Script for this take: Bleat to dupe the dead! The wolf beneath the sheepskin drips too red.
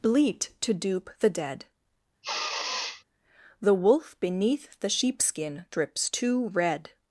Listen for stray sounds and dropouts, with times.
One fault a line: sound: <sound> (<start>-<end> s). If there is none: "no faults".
sound: sniff (2.2-3.0 s)